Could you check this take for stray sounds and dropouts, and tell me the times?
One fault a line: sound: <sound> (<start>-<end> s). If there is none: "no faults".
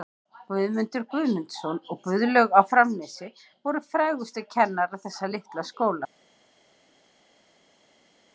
no faults